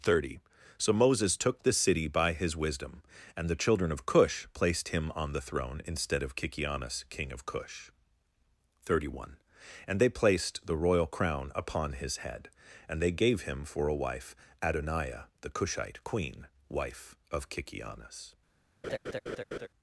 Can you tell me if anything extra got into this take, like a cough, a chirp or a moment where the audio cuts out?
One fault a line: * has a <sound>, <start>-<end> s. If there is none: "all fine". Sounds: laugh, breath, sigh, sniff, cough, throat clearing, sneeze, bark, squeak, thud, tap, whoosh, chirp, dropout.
* has a laugh, 18.8-19.7 s